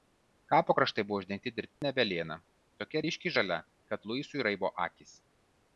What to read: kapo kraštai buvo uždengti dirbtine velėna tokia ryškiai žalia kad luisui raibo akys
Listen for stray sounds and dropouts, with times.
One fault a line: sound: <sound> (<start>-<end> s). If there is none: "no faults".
sound: dropout (1.7-1.8 s)